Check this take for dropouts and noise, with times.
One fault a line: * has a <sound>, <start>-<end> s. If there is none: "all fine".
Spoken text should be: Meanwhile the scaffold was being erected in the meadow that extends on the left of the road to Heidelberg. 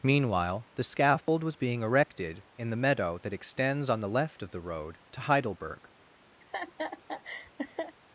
* has a dropout, 1.2-1.3 s
* has a laugh, 6.4-8.0 s